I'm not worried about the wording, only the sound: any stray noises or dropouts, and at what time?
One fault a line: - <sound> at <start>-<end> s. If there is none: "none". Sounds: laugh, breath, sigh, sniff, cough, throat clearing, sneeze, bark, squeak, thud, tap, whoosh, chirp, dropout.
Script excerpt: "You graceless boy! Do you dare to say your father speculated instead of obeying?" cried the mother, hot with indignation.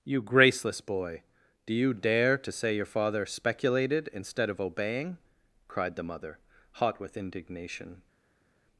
none